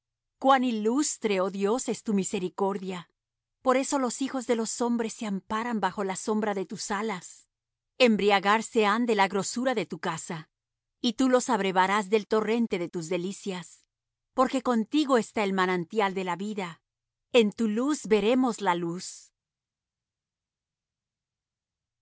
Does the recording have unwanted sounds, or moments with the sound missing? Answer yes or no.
no